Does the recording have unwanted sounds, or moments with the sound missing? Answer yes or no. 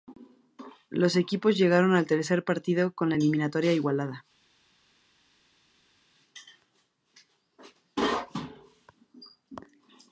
no